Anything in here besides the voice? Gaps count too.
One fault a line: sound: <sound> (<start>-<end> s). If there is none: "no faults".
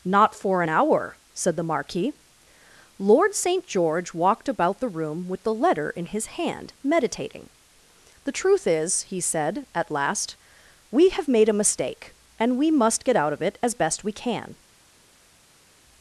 no faults